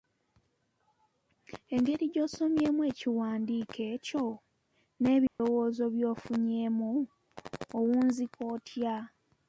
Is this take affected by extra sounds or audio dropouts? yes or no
yes